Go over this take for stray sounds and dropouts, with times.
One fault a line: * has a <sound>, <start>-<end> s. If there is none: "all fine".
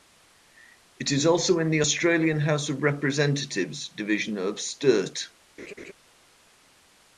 * has a laugh, 5.6-5.9 s